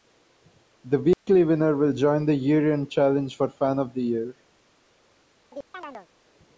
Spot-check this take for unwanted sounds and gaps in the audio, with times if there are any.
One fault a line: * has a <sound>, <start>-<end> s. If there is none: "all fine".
* has a dropout, 1.1-1.3 s
* has a chirp, 5.5-6.1 s